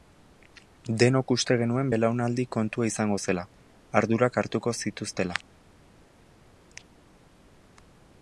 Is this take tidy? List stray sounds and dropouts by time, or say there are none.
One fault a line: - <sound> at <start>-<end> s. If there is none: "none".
none